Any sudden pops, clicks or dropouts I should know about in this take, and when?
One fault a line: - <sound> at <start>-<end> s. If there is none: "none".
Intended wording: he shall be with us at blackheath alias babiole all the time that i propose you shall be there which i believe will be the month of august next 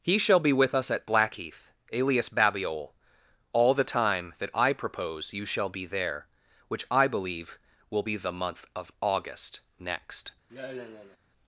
- sigh at 10.5-11.2 s